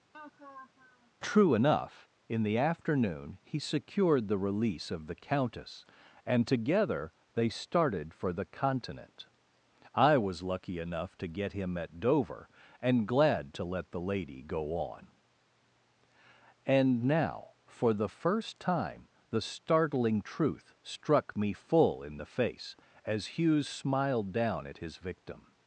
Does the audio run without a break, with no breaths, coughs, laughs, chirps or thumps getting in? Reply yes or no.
no